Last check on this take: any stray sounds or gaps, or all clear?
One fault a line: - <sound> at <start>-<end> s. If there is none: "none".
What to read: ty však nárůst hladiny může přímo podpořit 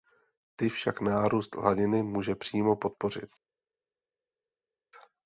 none